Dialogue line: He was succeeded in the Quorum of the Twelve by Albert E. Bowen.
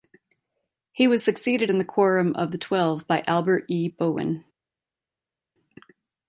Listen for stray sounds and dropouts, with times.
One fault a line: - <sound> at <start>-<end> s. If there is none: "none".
none